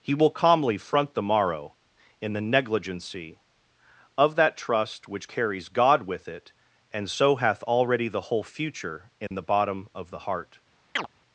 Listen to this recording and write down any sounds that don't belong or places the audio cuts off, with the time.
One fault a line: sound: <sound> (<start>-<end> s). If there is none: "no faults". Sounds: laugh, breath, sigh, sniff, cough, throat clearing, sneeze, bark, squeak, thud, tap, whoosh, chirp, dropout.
sound: dropout (9.3-9.3 s)
sound: chirp (11.0-11.1 s)